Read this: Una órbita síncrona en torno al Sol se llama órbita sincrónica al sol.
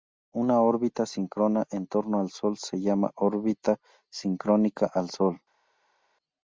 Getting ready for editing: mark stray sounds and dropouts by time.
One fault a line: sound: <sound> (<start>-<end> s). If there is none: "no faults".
no faults